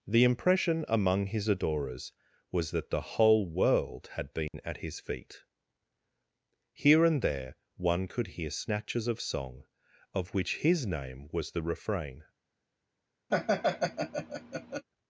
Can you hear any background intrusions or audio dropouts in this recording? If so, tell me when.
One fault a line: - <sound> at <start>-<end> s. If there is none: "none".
- dropout at 4.5-4.5 s
- laugh at 13.3-14.8 s